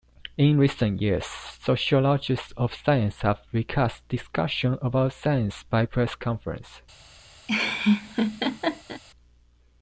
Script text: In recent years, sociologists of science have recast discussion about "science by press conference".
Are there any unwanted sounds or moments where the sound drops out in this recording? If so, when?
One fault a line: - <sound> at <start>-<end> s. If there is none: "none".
- laugh at 7.5-9.0 s